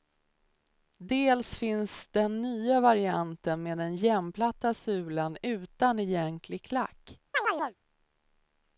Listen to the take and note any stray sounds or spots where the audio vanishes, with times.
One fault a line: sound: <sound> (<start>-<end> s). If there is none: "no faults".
sound: chirp (7.3-7.8 s)